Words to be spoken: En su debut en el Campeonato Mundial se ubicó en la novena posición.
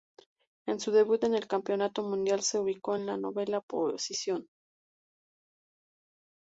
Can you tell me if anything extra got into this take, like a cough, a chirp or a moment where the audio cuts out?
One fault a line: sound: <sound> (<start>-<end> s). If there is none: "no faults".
no faults